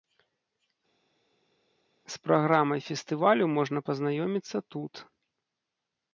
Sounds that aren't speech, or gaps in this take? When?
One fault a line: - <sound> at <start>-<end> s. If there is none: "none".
none